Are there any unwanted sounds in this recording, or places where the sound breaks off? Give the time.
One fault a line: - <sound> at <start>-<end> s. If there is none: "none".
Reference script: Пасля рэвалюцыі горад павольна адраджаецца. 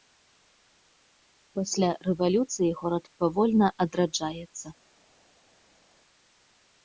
none